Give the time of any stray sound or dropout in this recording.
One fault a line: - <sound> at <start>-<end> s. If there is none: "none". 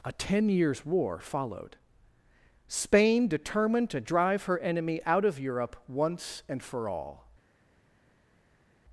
none